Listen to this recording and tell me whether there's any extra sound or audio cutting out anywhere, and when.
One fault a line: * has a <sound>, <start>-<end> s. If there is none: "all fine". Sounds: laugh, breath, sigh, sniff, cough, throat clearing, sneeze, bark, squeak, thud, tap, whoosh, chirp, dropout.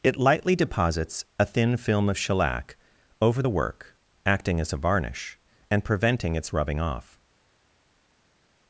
all fine